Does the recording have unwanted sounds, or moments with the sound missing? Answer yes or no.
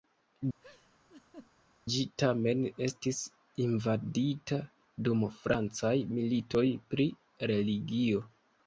yes